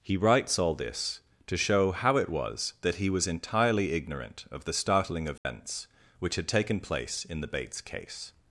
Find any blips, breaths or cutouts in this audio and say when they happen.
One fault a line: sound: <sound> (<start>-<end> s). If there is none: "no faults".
sound: dropout (5.4-5.4 s)